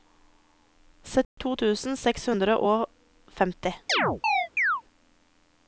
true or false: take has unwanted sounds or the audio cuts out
true